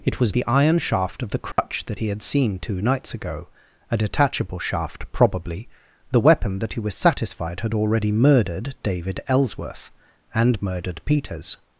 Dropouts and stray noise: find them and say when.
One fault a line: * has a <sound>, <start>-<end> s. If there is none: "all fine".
* has a dropout, 1.5-1.6 s